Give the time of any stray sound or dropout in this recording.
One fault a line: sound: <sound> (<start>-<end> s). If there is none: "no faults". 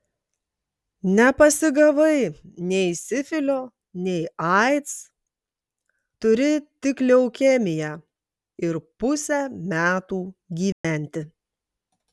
sound: dropout (10.7-10.8 s)